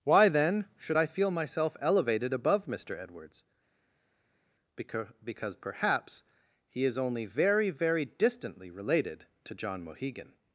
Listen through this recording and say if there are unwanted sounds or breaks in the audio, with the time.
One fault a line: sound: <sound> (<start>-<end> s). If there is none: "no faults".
no faults